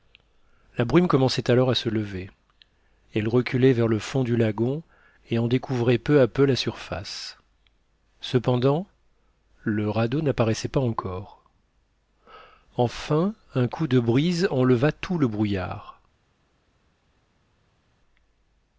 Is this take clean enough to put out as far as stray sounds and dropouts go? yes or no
yes